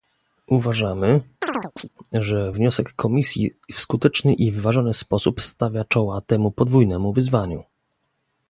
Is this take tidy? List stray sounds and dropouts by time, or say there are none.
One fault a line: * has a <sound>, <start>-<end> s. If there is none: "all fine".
* has a chirp, 1.4-1.9 s